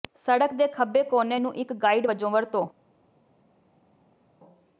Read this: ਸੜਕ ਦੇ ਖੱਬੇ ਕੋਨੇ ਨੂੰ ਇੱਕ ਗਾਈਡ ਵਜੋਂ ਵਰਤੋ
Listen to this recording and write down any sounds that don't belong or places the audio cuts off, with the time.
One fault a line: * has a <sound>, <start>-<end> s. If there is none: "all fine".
all fine